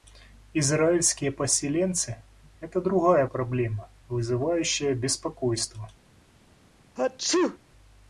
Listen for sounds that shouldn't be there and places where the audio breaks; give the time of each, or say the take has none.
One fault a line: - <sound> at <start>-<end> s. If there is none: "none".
- sneeze at 7.0-7.6 s